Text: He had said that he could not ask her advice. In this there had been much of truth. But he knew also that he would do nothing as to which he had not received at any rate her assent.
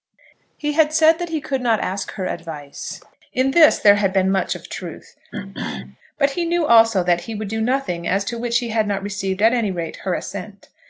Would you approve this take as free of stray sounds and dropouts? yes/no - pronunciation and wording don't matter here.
no